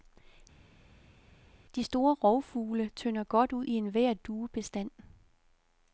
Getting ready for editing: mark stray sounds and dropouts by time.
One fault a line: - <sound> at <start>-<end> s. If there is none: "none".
none